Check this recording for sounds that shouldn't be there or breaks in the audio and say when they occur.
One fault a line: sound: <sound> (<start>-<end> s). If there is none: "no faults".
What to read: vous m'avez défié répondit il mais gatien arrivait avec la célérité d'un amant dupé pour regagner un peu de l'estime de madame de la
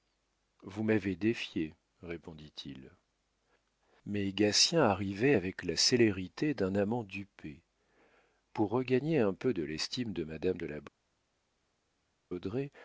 no faults